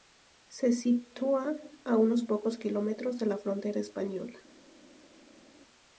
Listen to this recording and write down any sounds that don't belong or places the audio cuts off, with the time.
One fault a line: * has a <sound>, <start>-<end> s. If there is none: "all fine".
all fine